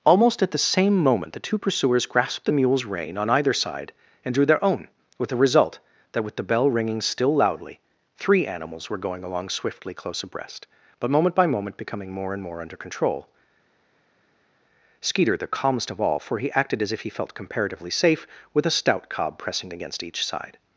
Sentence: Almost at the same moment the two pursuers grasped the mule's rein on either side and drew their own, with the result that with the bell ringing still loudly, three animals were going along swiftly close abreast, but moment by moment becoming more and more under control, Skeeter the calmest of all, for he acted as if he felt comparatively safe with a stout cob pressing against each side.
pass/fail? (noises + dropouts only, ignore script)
pass